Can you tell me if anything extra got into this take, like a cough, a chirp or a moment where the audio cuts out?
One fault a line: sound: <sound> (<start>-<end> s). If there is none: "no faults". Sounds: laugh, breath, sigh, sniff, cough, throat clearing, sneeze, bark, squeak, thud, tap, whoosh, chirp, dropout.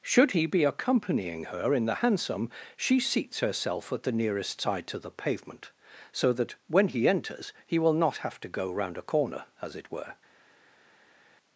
no faults